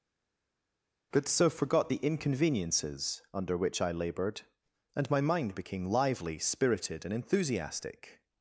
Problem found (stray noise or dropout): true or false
false